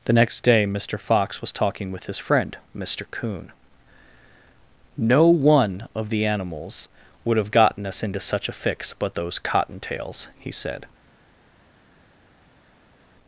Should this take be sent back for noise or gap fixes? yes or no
no